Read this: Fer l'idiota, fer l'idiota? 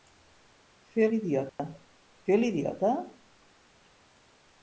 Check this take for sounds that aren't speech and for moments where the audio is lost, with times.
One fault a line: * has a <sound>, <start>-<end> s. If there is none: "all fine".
* has a dropout, 1.5-1.6 s